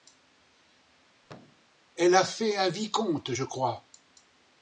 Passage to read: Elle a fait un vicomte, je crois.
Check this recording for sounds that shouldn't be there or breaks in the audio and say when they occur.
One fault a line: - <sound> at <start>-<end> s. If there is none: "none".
- thud at 1.2-1.7 s